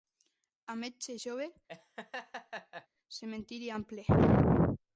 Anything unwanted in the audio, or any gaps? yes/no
yes